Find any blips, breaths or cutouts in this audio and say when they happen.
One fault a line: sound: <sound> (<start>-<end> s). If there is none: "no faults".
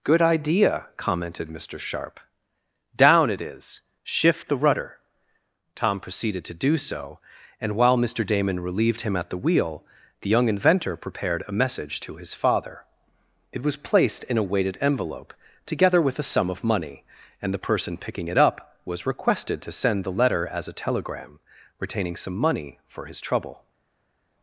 no faults